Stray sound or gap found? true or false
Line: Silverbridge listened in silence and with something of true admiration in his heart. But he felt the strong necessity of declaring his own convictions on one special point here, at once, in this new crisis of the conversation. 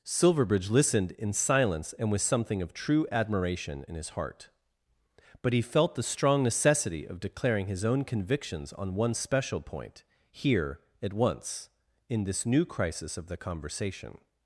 false